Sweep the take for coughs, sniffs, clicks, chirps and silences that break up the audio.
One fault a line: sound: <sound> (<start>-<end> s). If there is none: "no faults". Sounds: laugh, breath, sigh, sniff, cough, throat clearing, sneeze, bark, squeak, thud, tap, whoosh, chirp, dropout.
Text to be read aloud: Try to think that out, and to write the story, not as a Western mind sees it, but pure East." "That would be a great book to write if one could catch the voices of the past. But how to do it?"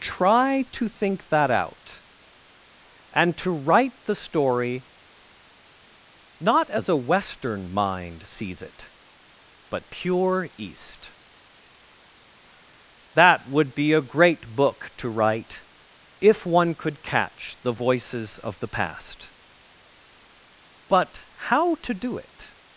no faults